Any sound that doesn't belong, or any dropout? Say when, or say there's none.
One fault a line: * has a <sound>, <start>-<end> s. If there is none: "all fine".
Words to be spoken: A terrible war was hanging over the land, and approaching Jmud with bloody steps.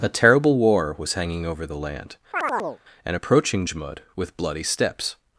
* has a chirp, 2.3-2.8 s